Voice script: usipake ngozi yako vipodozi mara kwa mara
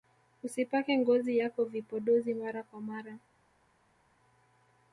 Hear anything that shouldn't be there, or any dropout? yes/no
no